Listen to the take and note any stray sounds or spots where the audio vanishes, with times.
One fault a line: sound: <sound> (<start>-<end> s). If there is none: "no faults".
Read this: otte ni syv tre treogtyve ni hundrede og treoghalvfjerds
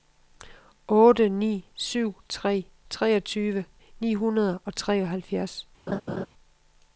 sound: laugh (5.9-6.3 s)